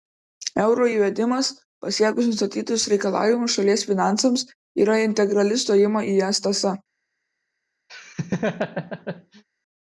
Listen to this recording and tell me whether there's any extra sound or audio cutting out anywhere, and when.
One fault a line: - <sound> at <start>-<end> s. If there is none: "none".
- laugh at 7.9-9.4 s